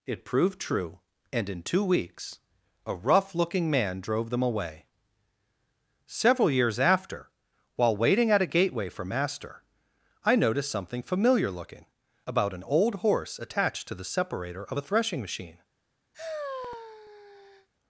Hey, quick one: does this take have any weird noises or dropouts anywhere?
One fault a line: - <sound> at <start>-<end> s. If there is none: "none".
- sigh at 16.1-17.7 s